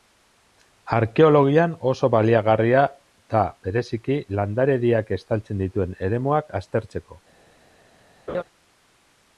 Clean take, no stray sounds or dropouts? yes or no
no